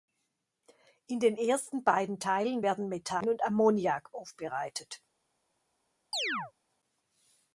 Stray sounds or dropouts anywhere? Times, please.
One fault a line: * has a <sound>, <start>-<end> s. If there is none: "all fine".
* has a chirp, 6.1-6.5 s